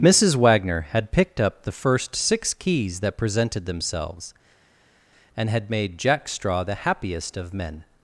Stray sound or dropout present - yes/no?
no